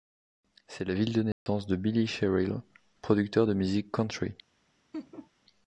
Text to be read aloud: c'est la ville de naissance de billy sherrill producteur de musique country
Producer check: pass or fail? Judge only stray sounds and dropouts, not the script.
fail